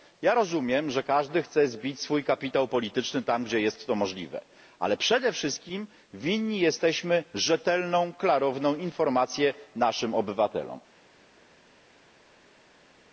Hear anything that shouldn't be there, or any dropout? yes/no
no